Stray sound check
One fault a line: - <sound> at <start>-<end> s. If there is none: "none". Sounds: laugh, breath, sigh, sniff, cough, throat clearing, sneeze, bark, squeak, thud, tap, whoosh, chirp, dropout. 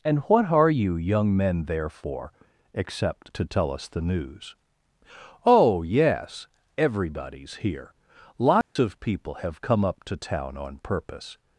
- dropout at 8.6-8.8 s